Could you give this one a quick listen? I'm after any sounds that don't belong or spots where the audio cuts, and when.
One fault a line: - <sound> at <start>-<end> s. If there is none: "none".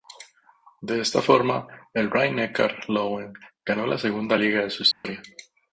- dropout at 4.9-5.0 s